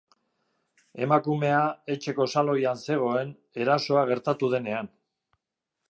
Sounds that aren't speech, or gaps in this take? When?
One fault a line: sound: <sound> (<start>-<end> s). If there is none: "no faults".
no faults